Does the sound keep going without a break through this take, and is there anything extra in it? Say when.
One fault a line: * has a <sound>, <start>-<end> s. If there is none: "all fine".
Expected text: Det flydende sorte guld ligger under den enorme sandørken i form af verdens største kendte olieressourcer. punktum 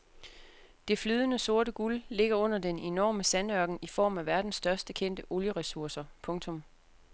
all fine